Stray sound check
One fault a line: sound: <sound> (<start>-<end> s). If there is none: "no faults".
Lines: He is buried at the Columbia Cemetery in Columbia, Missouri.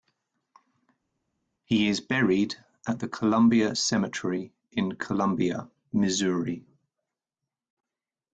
no faults